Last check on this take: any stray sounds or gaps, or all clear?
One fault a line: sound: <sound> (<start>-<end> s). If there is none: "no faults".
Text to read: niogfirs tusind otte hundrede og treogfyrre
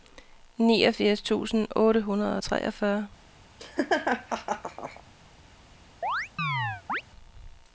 sound: laugh (3.6-5.0 s)
sound: chirp (6.0-7.0 s)